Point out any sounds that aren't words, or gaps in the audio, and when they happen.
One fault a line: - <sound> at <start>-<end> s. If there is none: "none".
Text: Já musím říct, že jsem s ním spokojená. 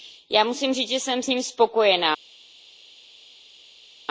none